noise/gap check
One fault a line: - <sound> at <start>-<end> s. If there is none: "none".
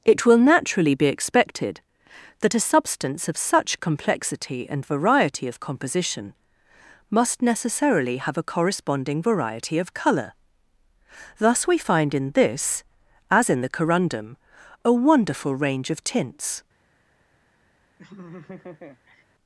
- laugh at 18.0-19.2 s